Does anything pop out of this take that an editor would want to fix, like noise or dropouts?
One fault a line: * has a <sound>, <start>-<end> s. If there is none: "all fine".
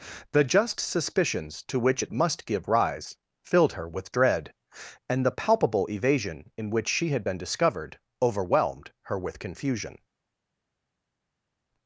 all fine